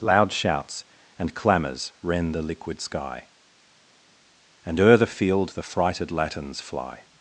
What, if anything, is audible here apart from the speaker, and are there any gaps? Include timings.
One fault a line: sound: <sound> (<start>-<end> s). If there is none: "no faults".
no faults